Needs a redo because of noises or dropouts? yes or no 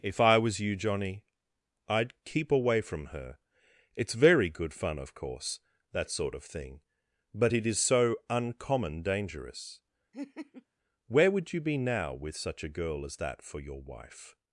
yes